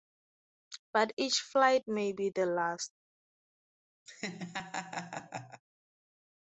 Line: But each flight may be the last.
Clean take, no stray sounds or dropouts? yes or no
no